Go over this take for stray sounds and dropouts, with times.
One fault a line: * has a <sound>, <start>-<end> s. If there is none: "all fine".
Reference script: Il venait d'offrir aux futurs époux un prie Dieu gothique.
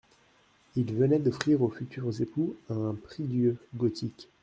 all fine